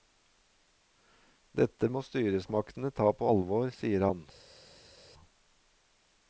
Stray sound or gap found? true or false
false